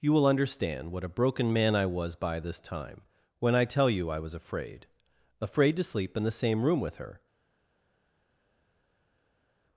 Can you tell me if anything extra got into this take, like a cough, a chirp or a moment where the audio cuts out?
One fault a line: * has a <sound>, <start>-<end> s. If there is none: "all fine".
all fine